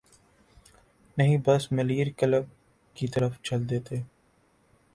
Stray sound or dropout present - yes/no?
no